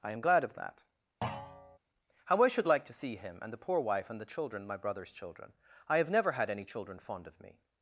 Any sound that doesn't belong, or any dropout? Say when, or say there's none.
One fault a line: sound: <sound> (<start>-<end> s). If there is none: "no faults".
sound: thud (1.2-1.8 s)